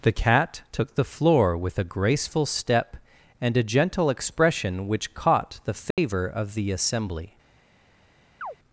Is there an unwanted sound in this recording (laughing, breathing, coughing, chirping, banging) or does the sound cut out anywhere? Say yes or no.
yes